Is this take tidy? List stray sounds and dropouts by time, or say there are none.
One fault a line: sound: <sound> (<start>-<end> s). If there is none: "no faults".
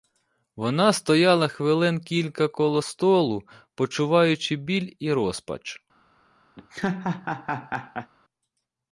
sound: laugh (6.6-8.1 s)